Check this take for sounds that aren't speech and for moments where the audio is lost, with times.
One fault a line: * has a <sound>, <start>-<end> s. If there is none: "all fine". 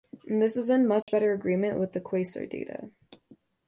* has a dropout, 1.0-1.1 s